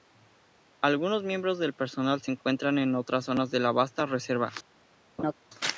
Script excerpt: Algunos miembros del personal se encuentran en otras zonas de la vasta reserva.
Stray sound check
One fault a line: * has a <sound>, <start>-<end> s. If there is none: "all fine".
* has a laugh, 5.2-5.3 s